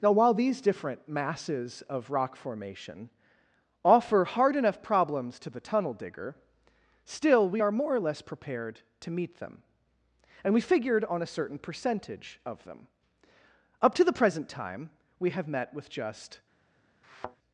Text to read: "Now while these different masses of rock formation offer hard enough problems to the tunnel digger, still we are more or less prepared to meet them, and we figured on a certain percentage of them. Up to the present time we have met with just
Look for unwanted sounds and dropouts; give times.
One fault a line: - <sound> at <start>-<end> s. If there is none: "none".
- thud at 17.0-17.4 s